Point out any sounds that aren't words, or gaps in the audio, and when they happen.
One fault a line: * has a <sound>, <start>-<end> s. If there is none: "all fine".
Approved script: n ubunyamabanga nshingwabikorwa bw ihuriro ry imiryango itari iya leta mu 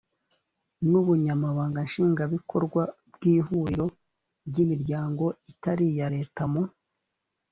all fine